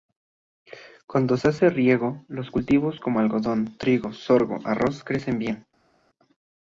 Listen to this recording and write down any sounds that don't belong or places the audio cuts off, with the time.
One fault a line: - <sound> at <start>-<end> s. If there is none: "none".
none